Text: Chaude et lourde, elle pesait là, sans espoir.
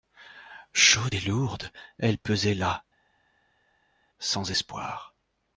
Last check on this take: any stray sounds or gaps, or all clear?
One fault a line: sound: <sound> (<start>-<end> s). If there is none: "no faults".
no faults